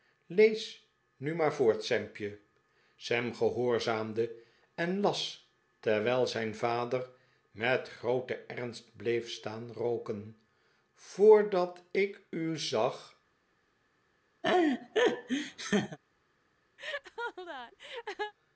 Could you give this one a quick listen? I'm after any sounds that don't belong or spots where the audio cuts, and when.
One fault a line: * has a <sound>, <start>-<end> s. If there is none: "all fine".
* has a laugh, 14.4-16.0 s
* has a laugh, 16.8-18.3 s